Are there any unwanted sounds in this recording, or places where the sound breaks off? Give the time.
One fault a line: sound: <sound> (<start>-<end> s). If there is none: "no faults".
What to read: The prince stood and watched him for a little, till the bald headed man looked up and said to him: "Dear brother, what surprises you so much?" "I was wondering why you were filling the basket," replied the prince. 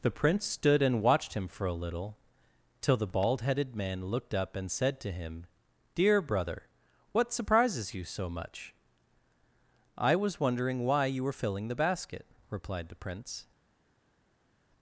no faults